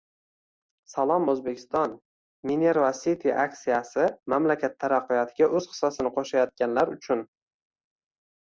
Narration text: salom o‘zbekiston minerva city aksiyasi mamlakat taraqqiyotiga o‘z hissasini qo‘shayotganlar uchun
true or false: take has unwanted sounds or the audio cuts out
false